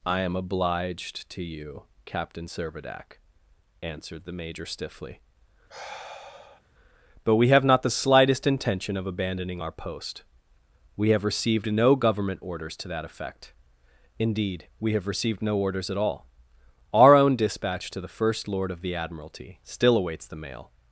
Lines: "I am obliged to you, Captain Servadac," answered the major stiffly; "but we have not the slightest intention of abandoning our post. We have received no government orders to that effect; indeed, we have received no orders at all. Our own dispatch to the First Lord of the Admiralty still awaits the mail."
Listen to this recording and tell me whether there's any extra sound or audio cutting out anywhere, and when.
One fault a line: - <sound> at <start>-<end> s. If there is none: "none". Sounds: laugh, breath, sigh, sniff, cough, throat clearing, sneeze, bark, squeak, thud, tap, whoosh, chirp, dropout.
- sigh at 5.7-6.6 s